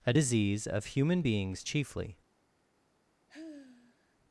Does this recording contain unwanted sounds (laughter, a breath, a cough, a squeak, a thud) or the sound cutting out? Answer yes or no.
yes